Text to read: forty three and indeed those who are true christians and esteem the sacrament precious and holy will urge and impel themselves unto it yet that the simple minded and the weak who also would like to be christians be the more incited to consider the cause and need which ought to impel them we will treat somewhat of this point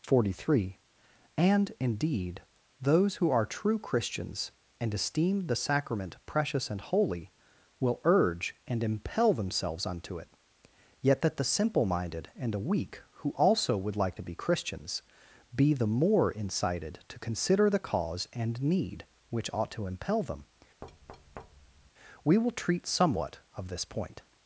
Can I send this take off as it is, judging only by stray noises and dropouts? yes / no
no